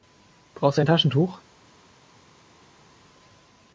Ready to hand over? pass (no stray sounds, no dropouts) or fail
pass